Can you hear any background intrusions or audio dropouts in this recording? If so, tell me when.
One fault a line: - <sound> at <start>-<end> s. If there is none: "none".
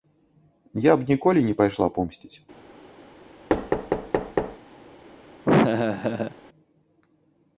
- thud at 3.5-4.6 s
- laugh at 5.5-6.4 s